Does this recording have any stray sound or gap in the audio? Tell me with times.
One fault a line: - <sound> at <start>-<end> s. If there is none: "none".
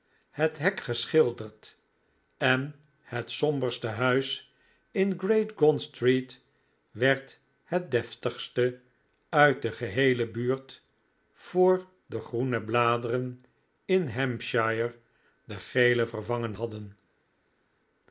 none